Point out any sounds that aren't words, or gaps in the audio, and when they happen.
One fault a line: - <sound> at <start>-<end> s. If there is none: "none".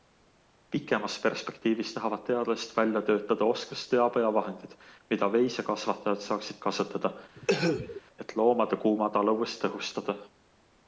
- cough at 7.3-8.0 s